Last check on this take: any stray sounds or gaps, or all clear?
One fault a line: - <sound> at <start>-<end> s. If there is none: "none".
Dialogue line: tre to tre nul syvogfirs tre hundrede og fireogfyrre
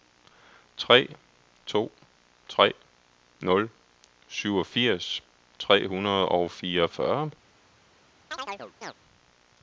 - chirp at 8.3-8.9 s